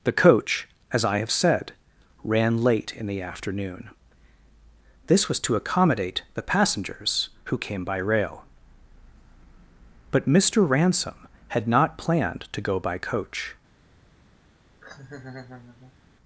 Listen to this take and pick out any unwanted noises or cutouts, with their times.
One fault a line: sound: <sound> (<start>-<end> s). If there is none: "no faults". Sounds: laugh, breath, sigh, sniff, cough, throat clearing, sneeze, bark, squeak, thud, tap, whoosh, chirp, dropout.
sound: laugh (14.8-16.0 s)